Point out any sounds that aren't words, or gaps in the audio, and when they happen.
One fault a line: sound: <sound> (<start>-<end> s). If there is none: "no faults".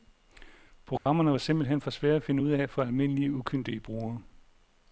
sound: dropout (1.0-1.1 s)